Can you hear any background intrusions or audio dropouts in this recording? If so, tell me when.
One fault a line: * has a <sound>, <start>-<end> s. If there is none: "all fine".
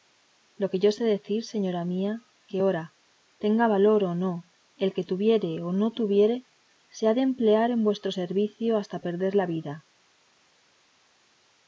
all fine